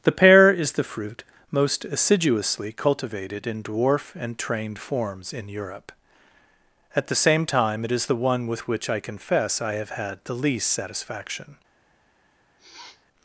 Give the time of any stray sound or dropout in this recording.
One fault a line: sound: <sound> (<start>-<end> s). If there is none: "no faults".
sound: sniff (12.6-13.1 s)